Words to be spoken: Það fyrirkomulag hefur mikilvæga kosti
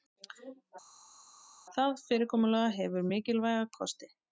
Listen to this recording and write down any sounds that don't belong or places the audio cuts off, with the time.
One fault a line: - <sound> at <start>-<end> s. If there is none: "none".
none